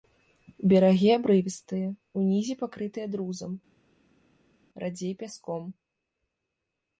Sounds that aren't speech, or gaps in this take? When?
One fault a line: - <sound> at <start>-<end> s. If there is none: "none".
none